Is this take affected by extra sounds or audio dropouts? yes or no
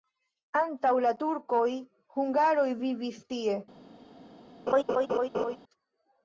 yes